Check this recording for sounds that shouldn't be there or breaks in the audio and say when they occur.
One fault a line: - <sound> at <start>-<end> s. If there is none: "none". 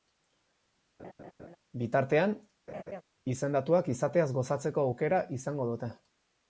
- laugh at 1.0-1.6 s
- laugh at 2.7-3.0 s